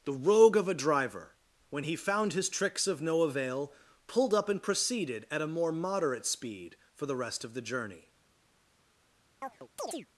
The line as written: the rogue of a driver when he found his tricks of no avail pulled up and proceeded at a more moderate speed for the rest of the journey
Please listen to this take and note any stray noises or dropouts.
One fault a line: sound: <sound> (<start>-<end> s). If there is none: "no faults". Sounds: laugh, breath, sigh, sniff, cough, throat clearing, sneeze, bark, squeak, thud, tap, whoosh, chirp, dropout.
sound: chirp (9.4-10.1 s)